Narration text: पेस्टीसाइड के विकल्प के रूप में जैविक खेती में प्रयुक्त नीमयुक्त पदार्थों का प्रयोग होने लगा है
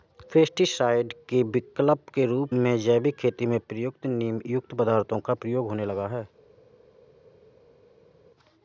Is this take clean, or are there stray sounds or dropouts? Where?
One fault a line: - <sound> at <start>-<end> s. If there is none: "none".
none